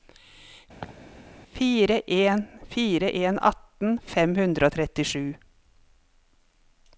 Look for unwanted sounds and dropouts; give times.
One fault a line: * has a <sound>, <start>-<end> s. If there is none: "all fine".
* has a laugh, 0.8-1.0 s